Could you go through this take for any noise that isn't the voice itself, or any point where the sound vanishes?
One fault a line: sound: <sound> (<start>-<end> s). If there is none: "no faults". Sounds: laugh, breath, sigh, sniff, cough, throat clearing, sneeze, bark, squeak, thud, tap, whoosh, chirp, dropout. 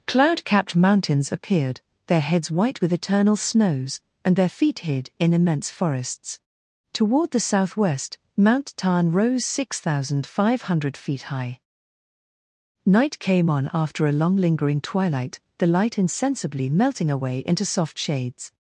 no faults